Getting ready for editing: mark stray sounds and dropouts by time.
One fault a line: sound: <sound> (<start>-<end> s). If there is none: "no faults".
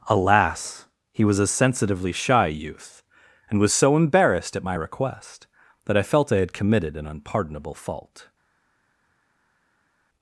no faults